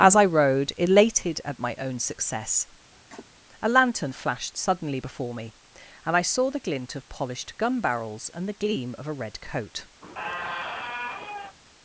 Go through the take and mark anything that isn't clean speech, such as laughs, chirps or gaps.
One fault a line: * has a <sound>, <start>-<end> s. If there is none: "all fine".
* has a cough, 2.9-3.4 s
* has a squeak, 10.0-11.6 s